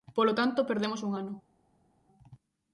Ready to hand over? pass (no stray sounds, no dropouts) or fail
pass